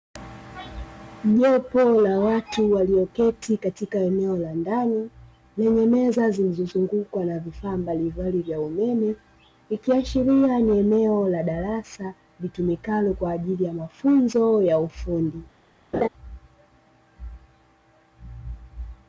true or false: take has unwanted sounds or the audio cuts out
true